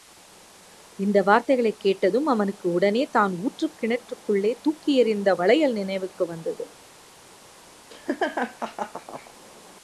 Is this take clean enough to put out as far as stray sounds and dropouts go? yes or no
no